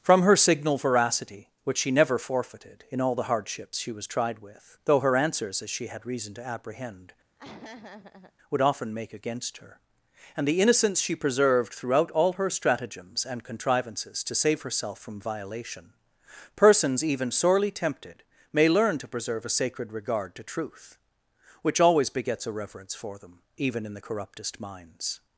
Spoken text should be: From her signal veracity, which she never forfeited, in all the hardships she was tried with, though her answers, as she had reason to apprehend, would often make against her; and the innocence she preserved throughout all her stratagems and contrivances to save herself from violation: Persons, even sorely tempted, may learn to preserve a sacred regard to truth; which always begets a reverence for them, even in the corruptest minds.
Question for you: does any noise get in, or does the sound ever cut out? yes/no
yes